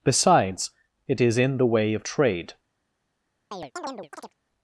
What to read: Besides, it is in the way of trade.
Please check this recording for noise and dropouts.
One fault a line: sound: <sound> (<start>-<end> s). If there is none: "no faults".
sound: chirp (3.5-4.3 s)